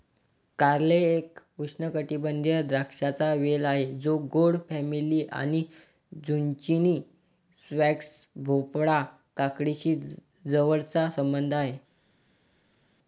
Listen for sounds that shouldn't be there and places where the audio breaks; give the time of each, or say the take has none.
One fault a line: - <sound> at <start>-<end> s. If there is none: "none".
none